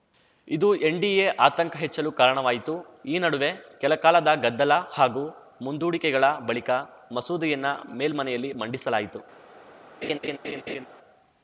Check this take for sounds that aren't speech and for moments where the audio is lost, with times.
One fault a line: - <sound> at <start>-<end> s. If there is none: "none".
- laugh at 10.0-10.9 s